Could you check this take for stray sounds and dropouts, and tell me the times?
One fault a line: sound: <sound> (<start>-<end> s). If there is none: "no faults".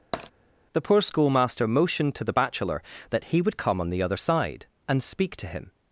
sound: tap (0.1-0.3 s)